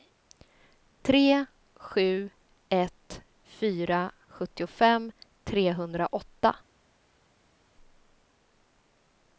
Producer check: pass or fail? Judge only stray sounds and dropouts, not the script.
pass